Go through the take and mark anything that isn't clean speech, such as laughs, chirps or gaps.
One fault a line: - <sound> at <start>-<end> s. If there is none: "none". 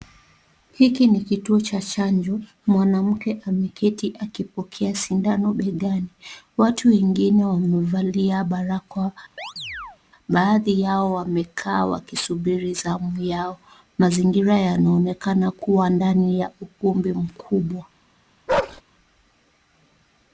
- chirp at 9.4-10.0 s
- bark at 18.5-18.8 s